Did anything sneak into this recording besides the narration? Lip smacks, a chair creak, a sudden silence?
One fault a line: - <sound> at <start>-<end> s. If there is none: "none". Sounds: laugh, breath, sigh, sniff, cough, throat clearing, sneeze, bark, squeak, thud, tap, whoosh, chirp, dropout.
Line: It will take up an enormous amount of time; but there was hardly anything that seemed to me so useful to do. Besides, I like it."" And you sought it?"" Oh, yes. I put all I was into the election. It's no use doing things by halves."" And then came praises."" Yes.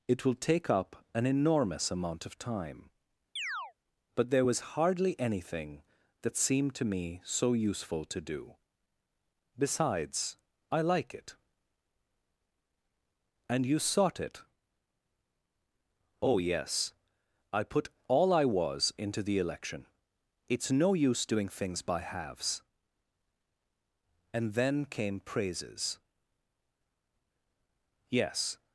- chirp at 3.4-3.7 s